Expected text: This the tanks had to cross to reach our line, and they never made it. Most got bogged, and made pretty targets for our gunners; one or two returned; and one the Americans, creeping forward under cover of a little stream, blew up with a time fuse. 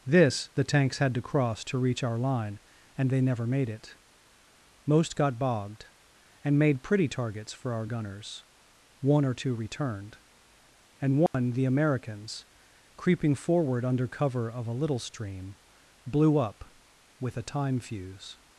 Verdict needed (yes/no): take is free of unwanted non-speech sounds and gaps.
no